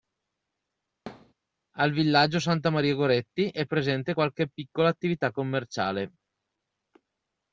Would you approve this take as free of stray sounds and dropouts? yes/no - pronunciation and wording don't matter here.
no